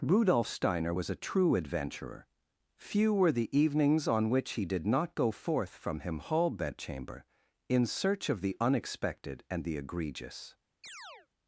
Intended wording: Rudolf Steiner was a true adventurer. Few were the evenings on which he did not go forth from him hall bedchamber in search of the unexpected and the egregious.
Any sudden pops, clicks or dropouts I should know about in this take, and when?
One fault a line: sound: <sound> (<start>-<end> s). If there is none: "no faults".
sound: chirp (10.8-11.3 s)